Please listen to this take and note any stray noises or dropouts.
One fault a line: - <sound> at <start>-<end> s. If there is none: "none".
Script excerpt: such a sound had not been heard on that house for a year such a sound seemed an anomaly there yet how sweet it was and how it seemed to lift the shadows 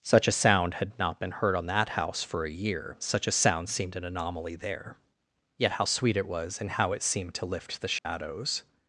- dropout at 8.0-8.1 s